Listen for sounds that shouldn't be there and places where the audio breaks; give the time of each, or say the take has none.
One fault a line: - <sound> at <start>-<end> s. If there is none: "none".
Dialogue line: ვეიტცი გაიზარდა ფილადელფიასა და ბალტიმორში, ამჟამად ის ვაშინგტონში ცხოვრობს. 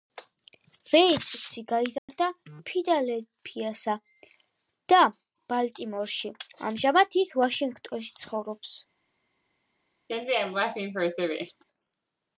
- dropout at 2.0-2.1 s
- laugh at 10.1-11.6 s